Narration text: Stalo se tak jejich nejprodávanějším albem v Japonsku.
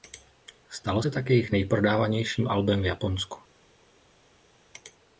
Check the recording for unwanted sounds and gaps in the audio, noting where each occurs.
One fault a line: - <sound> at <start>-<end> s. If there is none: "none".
none